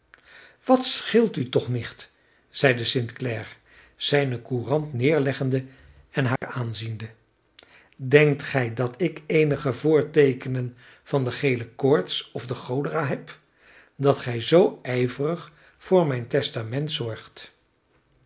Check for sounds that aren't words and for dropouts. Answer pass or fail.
fail